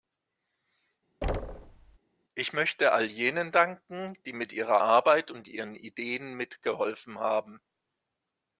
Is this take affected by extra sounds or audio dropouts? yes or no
yes